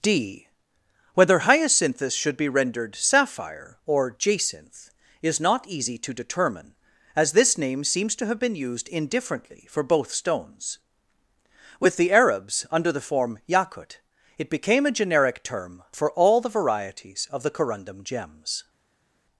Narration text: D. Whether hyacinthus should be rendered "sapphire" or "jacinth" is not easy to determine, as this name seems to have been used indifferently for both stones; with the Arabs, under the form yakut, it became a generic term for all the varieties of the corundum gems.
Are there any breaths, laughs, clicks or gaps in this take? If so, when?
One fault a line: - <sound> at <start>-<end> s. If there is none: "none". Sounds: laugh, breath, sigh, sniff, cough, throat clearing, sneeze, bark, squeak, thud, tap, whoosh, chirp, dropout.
none